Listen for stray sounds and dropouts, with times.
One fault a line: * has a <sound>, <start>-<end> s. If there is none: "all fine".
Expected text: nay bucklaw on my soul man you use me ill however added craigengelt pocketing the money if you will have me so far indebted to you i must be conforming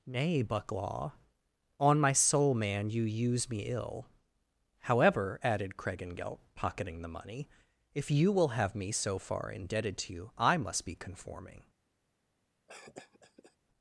* has a cough, 12.7-13.6 s